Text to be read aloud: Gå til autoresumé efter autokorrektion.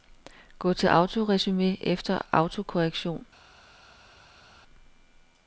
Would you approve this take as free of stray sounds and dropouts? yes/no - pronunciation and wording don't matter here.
yes